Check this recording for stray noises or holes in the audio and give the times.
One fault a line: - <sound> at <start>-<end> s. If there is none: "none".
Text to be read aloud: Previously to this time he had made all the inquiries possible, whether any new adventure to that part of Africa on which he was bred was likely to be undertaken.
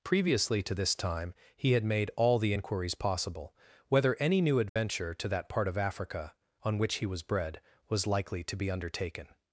- dropout at 4.7-4.8 s